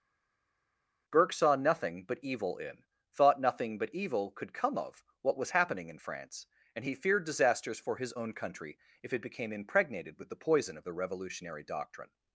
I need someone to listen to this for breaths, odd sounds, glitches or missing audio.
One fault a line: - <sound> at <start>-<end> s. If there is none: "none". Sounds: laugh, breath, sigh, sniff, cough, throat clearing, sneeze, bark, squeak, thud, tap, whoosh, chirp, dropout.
none